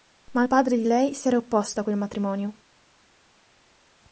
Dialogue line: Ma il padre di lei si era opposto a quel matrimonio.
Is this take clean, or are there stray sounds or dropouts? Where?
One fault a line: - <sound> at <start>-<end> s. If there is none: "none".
none